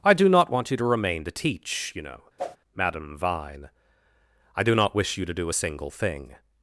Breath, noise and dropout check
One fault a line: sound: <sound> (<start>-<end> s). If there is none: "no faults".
sound: whoosh (2.4-2.6 s)